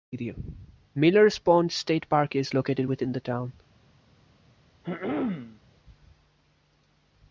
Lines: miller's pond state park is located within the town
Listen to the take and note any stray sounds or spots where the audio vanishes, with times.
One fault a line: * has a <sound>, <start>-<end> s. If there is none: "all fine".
* has a throat clearing, 4.8-5.6 s